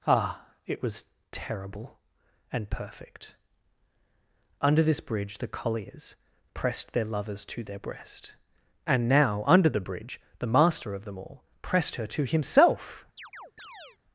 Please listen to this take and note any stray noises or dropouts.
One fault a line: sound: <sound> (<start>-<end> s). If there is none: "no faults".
sound: chirp (13.2-14.0 s)